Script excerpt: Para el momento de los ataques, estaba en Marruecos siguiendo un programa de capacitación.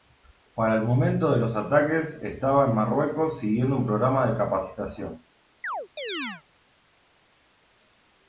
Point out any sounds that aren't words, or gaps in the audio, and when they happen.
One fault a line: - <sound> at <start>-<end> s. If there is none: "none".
- chirp at 5.6-6.4 s